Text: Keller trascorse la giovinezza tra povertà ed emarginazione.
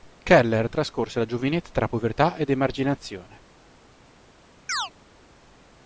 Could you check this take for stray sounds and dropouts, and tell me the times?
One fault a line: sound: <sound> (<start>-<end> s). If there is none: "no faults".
sound: chirp (4.7-4.9 s)